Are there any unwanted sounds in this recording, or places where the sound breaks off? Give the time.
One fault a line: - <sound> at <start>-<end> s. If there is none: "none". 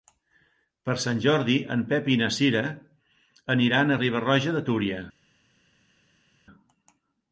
none